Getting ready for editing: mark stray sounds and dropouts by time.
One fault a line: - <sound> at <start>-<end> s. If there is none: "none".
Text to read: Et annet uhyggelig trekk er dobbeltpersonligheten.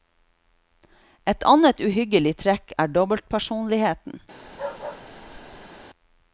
- bark at 4.4-5.9 s